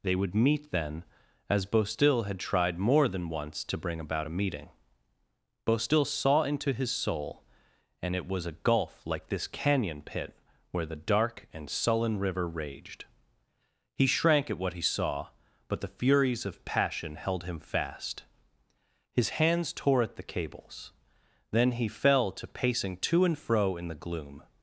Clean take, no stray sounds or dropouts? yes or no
yes